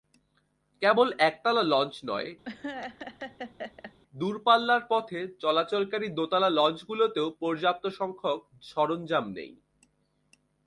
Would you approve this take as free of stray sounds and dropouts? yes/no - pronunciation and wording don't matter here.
no